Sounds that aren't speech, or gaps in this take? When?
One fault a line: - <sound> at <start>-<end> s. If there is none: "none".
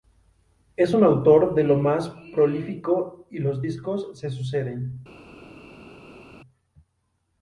none